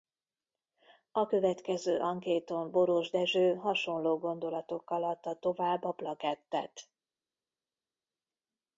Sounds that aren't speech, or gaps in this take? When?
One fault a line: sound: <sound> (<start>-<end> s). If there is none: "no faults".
no faults